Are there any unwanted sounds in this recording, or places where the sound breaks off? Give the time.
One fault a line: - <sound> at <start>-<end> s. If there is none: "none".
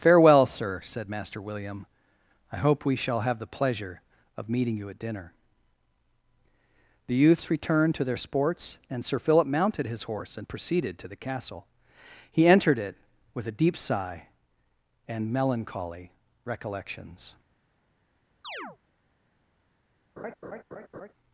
- chirp at 18.4-18.8 s
- laugh at 20.2-21.1 s